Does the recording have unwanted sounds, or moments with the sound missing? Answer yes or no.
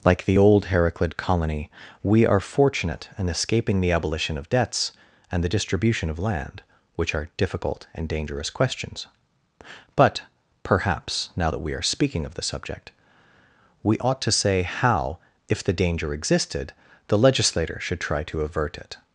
no